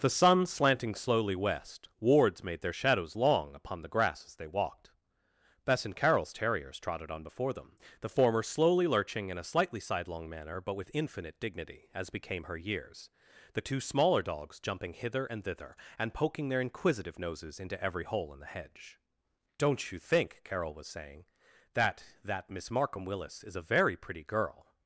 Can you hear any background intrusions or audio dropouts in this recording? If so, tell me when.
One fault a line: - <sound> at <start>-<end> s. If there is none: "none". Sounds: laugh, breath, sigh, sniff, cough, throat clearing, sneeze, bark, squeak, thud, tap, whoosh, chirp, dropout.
none